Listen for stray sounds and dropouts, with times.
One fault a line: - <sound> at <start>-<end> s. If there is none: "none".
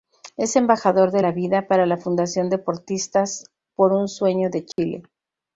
- dropout at 4.7-4.8 s